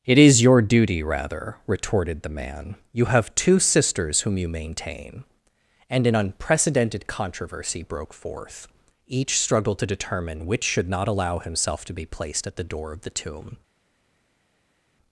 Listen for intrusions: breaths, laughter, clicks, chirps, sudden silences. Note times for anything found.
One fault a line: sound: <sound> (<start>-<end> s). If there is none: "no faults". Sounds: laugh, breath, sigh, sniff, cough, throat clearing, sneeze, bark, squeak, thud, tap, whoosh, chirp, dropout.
no faults